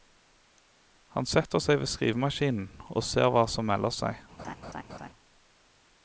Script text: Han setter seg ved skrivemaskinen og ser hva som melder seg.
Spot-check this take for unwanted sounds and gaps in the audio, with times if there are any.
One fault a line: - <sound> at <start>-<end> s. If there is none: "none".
- laugh at 4.4-5.1 s